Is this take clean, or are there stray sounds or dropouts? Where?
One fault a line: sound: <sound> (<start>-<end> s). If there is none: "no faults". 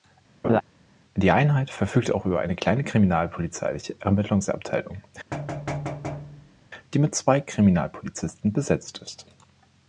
sound: laugh (0.4-0.6 s)
sound: thud (5.3-6.7 s)